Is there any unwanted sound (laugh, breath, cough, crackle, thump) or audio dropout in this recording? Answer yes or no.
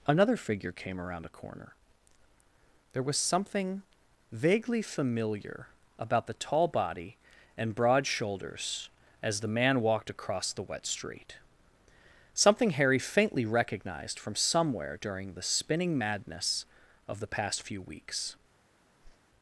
yes